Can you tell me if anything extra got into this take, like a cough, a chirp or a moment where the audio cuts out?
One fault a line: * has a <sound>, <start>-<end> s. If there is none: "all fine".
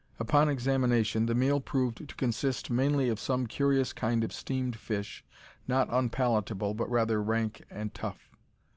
all fine